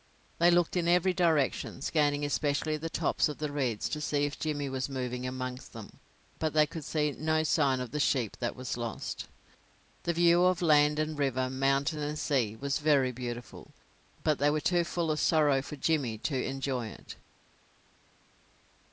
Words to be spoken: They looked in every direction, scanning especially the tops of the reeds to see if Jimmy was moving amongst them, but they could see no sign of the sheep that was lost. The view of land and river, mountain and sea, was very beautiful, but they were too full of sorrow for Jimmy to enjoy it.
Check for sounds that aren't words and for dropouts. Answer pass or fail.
pass